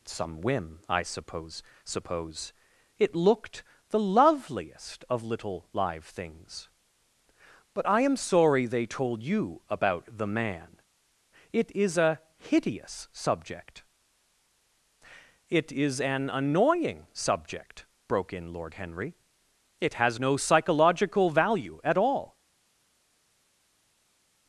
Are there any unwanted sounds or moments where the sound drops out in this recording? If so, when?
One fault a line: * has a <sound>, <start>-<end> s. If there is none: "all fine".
all fine